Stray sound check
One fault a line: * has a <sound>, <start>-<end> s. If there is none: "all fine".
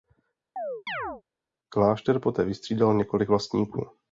* has a chirp, 0.6-1.2 s